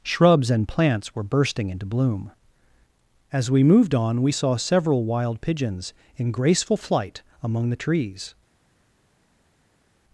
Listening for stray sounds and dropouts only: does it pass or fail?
pass